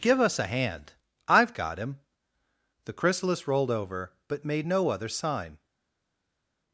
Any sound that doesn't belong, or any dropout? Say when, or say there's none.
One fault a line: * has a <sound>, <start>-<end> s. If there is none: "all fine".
all fine